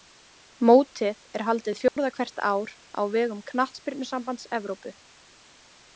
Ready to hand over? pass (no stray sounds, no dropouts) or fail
fail